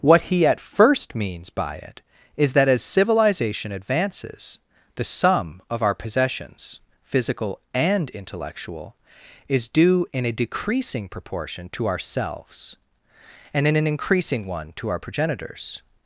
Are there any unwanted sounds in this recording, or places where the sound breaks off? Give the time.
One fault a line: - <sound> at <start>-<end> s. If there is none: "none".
none